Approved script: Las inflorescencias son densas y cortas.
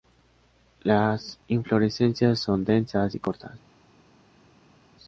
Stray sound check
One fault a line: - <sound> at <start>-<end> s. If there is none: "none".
none